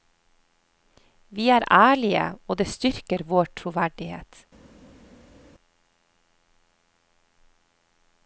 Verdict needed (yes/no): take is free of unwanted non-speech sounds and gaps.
yes